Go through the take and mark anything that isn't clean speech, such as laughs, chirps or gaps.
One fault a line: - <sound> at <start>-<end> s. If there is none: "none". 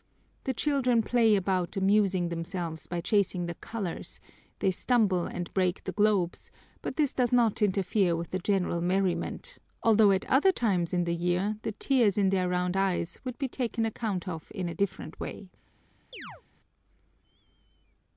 - chirp at 16.1-16.4 s